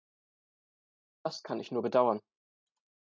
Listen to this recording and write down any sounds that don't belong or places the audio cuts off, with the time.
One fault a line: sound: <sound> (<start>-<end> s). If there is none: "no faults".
no faults